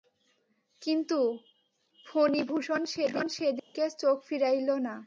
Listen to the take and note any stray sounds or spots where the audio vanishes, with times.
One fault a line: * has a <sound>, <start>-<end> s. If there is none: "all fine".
* has a dropout, 3.6-3.7 s